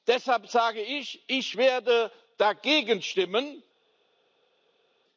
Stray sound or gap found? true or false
false